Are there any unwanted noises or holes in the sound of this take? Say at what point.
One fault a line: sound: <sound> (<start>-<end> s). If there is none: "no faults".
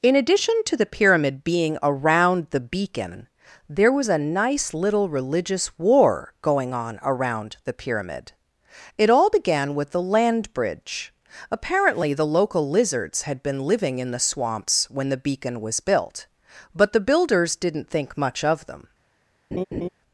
sound: laugh (19.5-19.9 s)